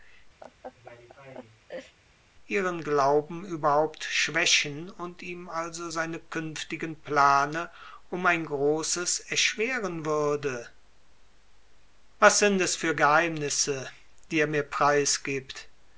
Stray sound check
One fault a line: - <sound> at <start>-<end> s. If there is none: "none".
- laugh at 0.4-2.0 s